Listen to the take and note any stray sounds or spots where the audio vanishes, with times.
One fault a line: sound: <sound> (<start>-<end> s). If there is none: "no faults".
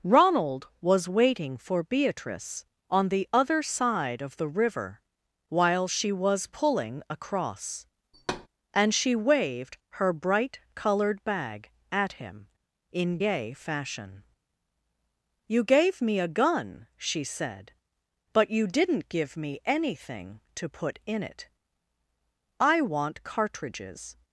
sound: thud (8.1-8.5 s)